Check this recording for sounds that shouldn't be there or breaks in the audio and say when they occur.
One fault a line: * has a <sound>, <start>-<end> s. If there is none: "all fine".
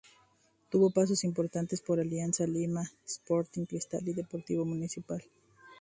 all fine